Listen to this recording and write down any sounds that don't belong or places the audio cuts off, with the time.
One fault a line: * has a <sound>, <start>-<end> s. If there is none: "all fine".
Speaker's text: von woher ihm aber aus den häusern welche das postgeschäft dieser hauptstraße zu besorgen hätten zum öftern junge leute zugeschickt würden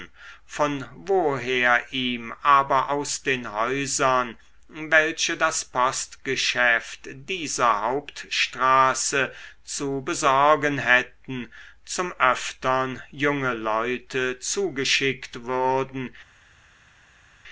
all fine